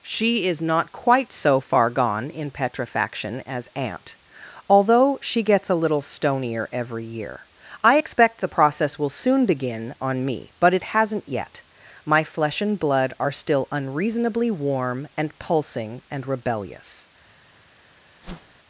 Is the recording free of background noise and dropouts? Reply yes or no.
no